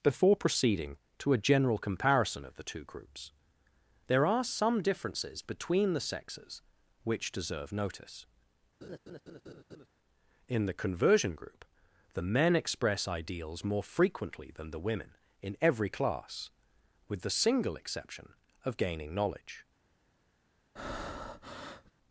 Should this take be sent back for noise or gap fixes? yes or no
yes